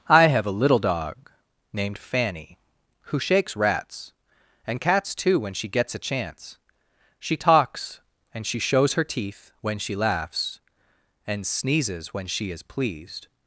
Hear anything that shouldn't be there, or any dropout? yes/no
no